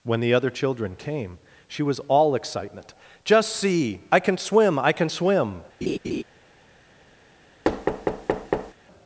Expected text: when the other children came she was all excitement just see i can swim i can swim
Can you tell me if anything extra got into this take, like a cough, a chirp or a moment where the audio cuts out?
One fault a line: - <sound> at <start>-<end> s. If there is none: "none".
- laugh at 5.8-6.2 s
- thud at 7.6-8.7 s